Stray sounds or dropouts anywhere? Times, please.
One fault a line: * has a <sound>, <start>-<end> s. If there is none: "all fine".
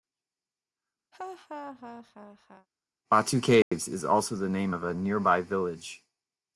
* has a laugh, 1.1-2.7 s
* has a dropout, 3.6-3.7 s